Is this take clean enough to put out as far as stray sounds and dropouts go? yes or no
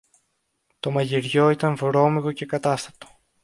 yes